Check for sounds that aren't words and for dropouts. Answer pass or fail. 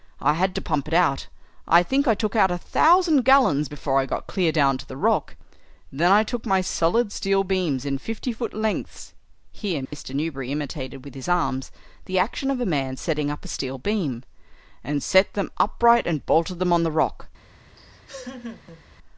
fail